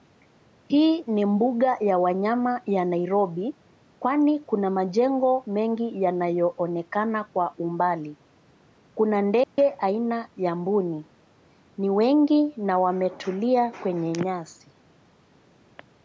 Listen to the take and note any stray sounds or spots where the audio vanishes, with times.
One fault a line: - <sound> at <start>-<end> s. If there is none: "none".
- dropout at 9.4-9.6 s